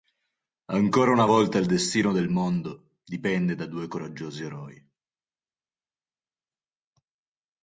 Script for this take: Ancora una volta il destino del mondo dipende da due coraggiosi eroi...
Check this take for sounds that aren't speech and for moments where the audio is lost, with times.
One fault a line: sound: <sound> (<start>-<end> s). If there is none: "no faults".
no faults